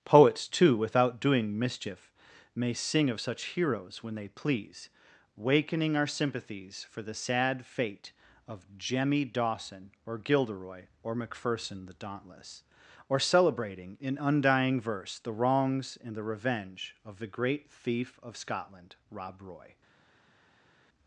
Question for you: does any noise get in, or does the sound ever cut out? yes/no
no